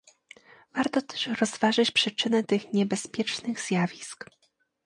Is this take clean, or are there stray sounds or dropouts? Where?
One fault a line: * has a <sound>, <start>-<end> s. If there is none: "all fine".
all fine